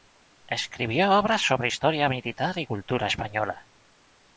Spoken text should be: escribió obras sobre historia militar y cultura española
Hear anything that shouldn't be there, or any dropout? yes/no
no